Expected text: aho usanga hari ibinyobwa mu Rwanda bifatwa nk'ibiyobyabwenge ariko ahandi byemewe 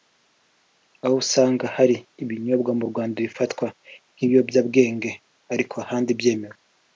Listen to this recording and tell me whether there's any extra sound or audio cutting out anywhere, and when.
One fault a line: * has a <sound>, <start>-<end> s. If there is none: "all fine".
all fine